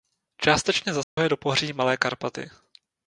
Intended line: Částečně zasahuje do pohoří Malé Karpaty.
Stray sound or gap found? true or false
true